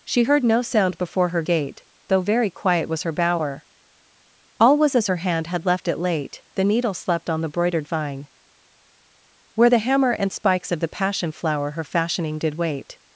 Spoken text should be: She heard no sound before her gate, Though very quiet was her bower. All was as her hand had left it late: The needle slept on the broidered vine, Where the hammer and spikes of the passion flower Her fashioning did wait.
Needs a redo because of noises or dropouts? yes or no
no